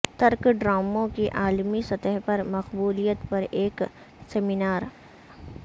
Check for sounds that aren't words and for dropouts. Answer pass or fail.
pass